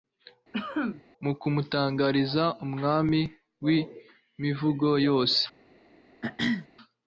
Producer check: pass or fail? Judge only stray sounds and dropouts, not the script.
fail